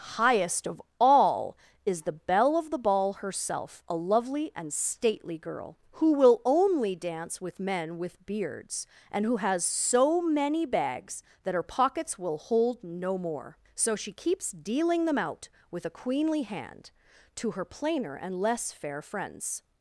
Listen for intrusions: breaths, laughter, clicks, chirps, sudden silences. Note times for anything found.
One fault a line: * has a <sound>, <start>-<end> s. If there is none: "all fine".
all fine